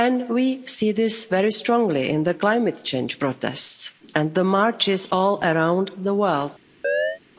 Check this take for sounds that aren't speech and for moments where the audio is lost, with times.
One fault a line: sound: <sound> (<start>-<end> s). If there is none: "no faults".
sound: chirp (6.8-7.2 s)